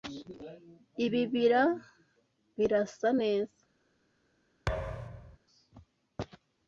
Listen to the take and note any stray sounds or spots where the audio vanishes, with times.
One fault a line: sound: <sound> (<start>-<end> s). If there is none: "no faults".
sound: thud (4.7-5.4 s)